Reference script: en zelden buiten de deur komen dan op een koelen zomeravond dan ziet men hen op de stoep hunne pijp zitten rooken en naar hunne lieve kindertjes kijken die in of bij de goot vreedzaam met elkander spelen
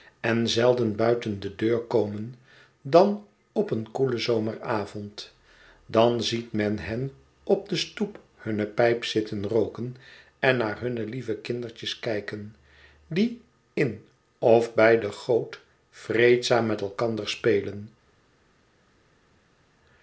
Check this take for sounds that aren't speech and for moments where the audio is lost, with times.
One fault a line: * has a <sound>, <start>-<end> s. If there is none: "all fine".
all fine